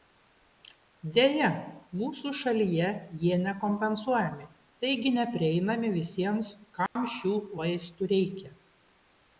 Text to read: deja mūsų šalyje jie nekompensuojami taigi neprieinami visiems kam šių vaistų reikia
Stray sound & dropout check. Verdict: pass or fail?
fail